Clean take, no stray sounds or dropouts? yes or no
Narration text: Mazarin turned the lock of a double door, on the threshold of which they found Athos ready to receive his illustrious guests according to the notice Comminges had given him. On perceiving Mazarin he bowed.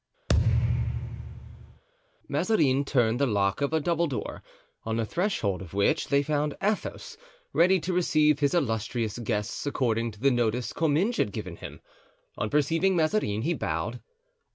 no